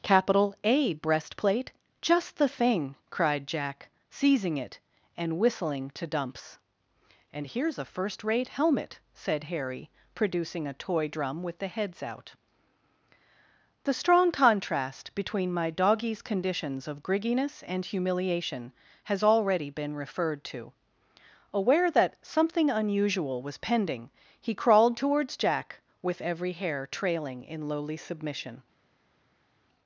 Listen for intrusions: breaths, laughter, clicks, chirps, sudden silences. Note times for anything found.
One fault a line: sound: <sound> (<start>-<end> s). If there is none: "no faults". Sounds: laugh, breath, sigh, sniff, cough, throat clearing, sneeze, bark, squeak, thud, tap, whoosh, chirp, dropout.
no faults